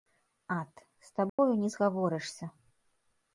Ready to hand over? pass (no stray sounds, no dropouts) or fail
fail